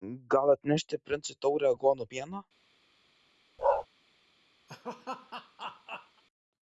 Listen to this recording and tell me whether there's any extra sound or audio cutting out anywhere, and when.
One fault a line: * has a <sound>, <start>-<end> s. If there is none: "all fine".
* has a bark, 3.6-3.9 s
* has a laugh, 4.7-6.2 s